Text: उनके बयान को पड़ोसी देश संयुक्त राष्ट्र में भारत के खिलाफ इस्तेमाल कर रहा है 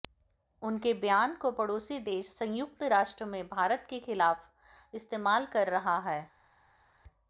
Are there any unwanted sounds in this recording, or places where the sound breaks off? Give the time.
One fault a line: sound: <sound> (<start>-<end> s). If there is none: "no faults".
no faults